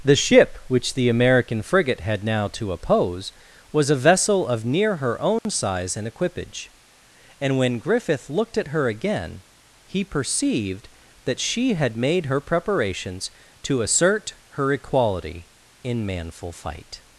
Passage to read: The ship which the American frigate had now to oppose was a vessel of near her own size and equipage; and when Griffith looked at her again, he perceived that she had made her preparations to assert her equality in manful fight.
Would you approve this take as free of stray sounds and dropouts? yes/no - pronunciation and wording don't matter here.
no